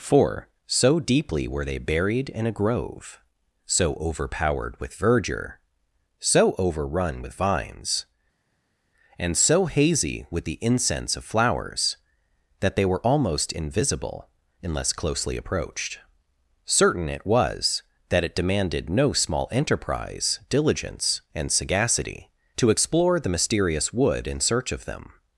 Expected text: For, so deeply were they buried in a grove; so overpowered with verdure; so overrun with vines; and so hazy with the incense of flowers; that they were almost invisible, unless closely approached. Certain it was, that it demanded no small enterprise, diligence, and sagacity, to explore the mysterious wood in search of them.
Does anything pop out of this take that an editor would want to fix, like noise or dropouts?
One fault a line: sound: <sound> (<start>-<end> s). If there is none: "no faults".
no faults